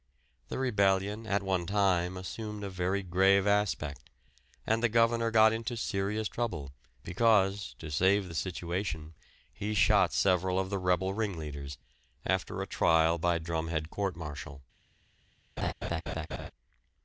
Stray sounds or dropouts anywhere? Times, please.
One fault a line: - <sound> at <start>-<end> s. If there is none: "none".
- laugh at 15.6-16.5 s